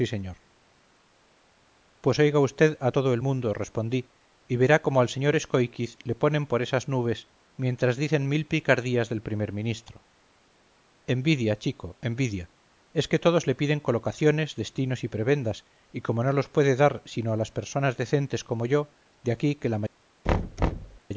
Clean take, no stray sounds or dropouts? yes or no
no